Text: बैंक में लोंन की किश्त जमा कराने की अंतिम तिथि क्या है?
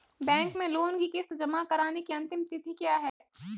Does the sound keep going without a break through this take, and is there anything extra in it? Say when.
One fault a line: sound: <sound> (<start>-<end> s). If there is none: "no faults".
sound: dropout (3.1-3.2 s)